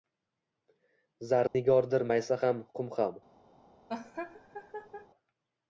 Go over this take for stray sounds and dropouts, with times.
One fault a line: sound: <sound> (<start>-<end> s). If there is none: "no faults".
sound: dropout (1.5-1.5 s)
sound: laugh (3.9-5.1 s)